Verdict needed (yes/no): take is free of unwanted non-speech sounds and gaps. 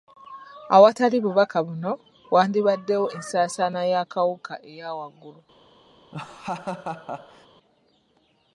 no